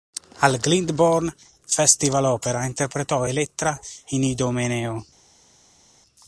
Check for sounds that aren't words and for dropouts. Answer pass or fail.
pass